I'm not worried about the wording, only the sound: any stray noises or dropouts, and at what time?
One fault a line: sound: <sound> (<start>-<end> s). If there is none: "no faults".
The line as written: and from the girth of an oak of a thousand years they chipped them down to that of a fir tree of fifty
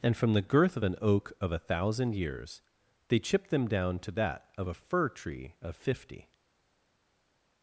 no faults